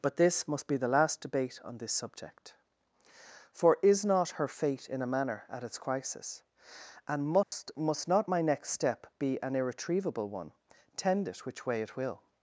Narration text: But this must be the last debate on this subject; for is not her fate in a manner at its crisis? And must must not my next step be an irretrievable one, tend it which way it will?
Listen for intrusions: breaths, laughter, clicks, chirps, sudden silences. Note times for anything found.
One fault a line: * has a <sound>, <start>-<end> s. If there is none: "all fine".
* has a dropout, 7.4-7.5 s